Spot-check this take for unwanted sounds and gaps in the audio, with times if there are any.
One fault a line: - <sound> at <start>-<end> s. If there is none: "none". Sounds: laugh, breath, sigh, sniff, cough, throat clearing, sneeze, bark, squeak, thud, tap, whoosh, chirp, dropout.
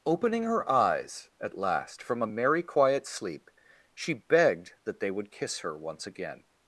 none